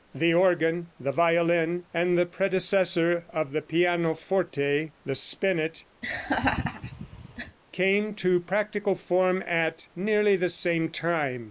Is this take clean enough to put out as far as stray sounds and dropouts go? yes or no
no